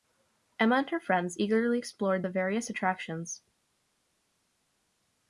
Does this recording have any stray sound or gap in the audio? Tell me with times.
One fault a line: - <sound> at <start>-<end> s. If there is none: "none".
none